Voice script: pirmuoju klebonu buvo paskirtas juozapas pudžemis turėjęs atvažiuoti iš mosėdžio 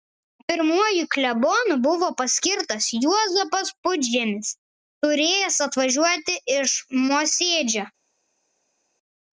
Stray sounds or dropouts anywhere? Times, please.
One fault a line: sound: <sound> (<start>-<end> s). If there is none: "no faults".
no faults